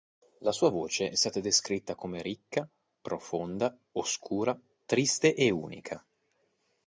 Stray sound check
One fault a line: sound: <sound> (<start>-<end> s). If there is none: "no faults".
no faults